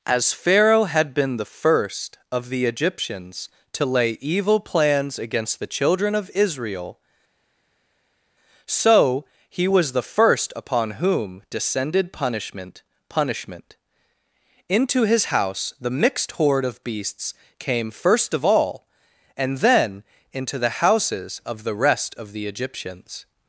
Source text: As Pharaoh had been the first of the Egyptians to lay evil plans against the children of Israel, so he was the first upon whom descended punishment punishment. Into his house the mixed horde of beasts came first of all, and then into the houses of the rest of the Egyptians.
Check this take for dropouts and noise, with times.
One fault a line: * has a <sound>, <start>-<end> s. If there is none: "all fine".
all fine